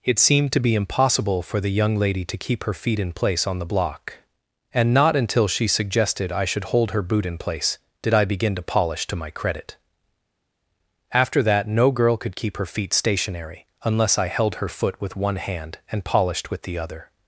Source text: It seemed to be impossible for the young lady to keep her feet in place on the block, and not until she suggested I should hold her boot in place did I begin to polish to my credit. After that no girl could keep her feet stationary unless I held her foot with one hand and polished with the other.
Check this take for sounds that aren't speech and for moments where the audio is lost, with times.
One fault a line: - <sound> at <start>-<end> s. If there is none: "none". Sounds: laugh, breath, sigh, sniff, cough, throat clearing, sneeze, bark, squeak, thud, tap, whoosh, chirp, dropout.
none